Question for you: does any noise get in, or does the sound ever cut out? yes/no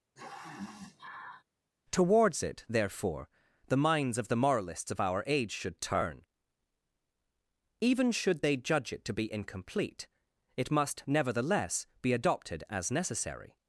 yes